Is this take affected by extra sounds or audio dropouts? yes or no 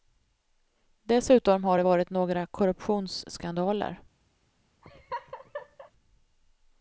yes